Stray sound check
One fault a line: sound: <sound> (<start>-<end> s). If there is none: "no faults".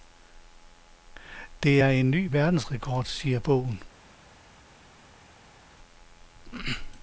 no faults